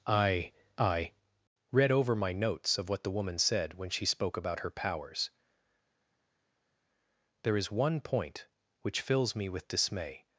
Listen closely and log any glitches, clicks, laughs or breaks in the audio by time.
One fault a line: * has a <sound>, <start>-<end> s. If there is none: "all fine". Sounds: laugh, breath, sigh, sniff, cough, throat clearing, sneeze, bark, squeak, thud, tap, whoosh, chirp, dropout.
all fine